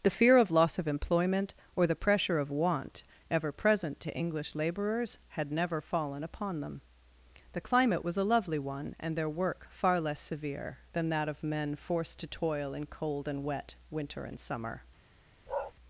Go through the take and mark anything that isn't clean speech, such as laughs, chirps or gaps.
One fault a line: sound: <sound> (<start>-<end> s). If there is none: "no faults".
sound: bark (15.5-15.7 s)